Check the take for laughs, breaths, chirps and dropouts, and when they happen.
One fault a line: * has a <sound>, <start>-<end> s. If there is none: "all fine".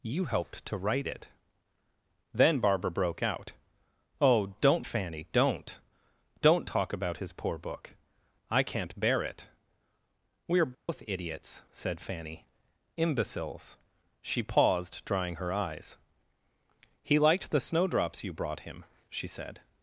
* has a dropout, 10.7-10.9 s